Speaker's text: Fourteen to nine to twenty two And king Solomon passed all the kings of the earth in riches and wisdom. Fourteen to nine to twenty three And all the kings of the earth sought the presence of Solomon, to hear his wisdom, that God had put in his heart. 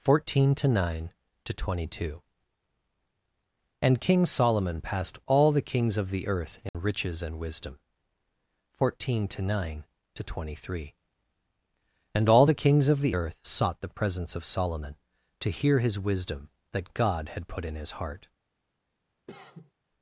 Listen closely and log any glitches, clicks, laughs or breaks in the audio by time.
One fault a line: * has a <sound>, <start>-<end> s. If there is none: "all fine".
* has a dropout, 6.7-6.7 s
* has a cough, 19.3-19.7 s